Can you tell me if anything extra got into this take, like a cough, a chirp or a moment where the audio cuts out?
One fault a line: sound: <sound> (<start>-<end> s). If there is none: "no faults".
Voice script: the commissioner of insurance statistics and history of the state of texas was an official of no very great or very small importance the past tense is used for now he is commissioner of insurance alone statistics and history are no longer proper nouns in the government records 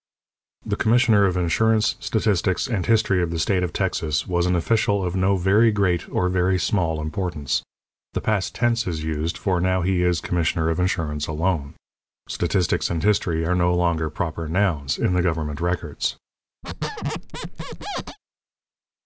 sound: squeak (16.6-18.2 s)